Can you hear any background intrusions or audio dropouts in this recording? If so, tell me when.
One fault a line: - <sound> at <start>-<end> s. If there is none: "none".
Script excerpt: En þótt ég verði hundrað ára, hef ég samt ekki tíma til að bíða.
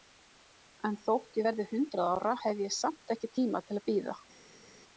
none